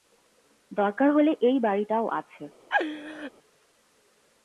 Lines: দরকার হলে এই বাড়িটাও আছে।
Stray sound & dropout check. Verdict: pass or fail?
fail